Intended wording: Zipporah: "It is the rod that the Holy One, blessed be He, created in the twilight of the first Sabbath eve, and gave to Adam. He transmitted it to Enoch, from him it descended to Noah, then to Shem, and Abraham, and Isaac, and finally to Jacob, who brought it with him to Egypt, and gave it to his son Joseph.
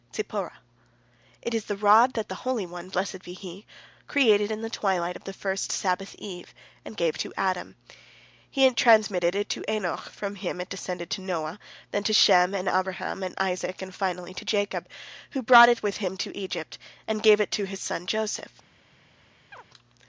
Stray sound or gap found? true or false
true